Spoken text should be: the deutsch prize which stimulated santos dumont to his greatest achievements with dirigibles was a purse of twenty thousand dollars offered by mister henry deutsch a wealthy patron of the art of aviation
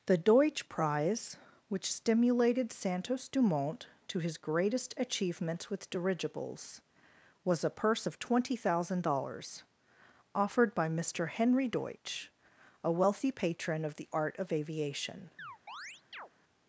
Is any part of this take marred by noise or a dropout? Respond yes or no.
yes